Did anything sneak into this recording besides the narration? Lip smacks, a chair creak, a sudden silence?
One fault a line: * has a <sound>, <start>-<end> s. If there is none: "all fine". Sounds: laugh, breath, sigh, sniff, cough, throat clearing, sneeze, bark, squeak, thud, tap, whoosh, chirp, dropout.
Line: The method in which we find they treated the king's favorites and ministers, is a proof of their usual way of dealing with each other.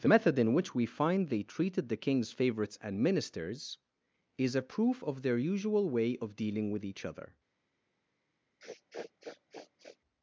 * has a sniff, 8.6-10.0 s